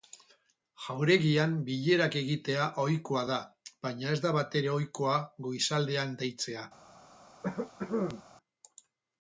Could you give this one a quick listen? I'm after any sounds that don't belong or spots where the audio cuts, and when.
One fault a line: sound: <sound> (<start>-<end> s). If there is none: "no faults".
sound: cough (7.4-8.2 s)